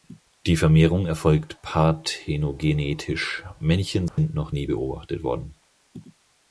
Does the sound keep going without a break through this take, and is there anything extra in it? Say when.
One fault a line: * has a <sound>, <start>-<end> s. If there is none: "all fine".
* has a dropout, 4.1-4.2 s